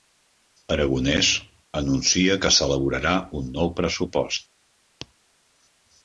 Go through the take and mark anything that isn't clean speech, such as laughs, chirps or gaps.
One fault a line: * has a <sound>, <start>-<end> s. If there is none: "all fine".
all fine